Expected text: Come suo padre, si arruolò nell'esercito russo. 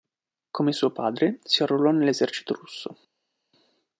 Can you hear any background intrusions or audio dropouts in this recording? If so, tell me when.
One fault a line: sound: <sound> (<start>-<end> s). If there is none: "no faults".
no faults